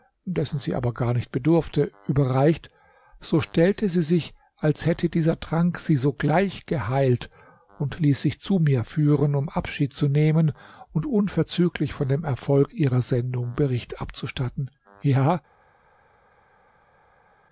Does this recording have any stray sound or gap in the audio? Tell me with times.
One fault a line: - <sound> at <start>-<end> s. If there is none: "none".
none